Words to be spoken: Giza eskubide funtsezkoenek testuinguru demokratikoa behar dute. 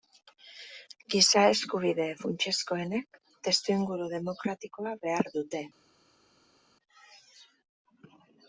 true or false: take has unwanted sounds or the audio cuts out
false